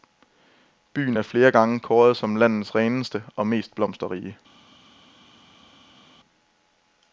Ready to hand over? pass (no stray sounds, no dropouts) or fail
pass